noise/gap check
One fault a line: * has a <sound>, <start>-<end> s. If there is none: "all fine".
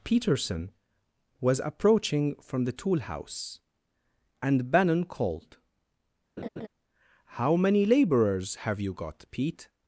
* has a laugh, 6.4-6.7 s